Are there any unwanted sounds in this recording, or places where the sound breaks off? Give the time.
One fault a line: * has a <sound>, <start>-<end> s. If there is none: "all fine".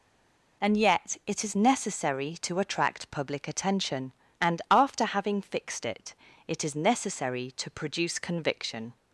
all fine